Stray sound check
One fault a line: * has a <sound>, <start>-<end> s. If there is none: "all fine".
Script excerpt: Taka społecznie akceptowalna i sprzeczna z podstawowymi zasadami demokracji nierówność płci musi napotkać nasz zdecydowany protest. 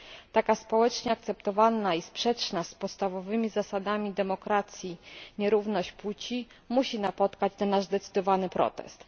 all fine